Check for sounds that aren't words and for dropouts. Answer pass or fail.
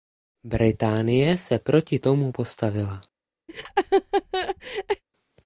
fail